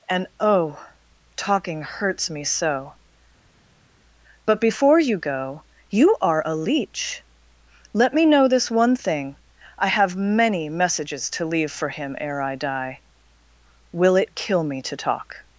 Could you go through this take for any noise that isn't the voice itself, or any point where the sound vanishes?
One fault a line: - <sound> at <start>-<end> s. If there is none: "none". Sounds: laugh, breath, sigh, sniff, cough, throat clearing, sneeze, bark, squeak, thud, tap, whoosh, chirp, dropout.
none